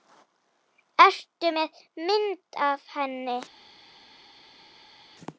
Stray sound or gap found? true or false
false